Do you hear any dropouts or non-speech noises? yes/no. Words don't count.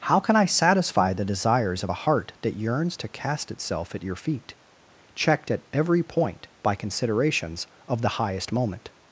no